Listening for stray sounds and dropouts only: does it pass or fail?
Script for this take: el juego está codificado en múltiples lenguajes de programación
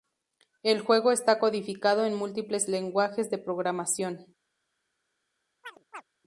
fail